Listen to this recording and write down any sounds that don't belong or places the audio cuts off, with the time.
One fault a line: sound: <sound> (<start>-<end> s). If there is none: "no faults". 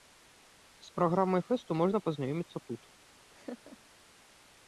sound: laugh (3.3-3.8 s)